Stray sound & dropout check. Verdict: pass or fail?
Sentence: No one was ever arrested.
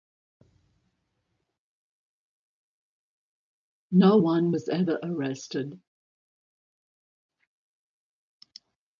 pass